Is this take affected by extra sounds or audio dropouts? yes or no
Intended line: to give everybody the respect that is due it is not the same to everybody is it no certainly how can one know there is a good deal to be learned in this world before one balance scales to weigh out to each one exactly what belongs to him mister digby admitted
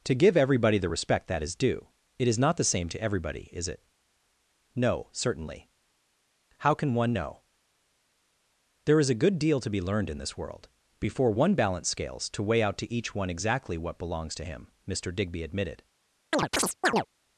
yes